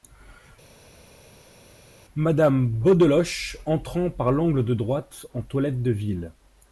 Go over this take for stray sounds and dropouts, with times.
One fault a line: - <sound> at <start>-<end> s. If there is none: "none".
none